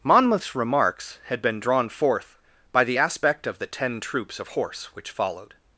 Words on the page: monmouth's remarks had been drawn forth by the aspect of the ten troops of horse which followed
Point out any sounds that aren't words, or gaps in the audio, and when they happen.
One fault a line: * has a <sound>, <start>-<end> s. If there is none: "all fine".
all fine